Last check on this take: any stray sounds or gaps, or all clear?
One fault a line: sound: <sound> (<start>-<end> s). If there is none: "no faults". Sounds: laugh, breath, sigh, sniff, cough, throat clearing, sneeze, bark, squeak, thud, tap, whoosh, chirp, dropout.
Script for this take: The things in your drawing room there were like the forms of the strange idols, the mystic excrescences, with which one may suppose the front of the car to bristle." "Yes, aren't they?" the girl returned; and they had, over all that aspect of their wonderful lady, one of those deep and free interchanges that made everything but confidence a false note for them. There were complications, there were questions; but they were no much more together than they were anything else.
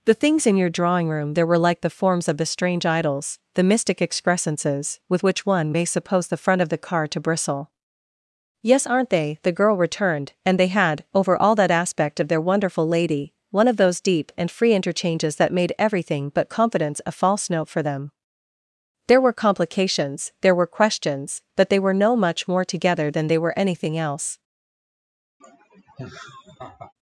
sound: laugh (25.4-26.9 s)